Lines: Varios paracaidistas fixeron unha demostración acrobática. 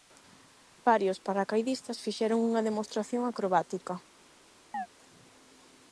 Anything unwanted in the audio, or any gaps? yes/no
yes